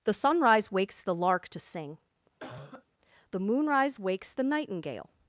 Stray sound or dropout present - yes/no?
yes